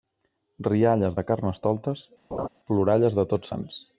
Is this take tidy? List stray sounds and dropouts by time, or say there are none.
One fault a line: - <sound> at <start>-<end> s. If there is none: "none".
- laugh at 2.3-2.5 s